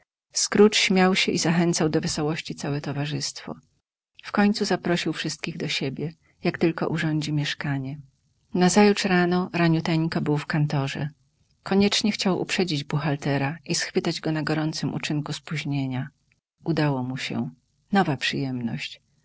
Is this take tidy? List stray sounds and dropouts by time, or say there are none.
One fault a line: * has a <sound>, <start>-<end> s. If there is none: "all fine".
all fine